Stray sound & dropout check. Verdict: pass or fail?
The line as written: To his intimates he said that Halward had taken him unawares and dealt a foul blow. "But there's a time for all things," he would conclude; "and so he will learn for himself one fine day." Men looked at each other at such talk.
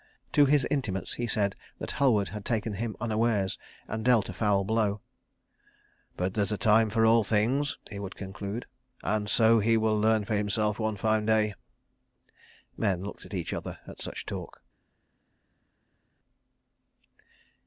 pass